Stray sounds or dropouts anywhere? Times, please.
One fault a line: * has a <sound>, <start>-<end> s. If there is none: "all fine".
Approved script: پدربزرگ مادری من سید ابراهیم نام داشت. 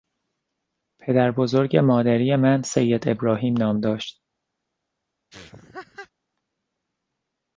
* has a laugh, 5.3-6.1 s